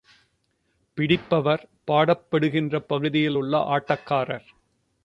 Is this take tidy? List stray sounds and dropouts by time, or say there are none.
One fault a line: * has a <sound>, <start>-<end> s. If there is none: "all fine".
all fine